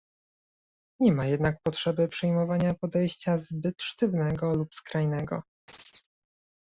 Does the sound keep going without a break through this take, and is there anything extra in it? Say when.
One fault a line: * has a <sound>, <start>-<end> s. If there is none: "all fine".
* has a chirp, 5.7-6.1 s